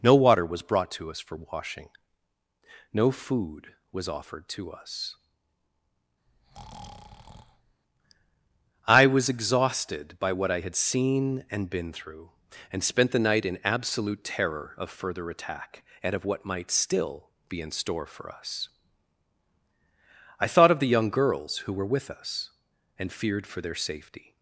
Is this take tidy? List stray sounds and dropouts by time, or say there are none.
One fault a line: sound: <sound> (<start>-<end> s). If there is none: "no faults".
sound: breath (6.3-7.8 s)